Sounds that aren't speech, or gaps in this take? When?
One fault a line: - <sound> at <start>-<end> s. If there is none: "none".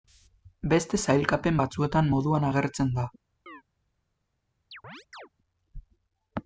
- chirp at 3.5-3.6 s
- chirp at 4.7-5.3 s